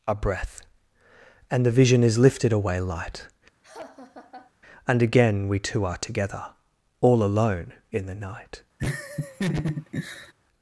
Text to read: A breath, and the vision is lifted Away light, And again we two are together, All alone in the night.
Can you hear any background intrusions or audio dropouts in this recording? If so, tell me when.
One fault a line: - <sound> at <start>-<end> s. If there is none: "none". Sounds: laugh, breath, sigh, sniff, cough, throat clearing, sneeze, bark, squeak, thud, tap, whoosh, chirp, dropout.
- laugh at 3.6-4.5 s
- laugh at 8.8-10.3 s